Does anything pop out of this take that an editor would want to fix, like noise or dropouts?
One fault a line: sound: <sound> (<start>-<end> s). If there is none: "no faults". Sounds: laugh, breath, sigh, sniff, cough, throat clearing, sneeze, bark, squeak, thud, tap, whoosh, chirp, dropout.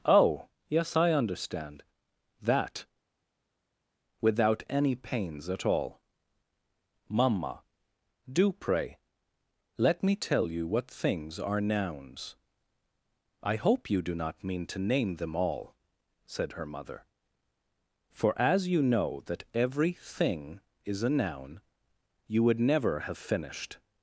no faults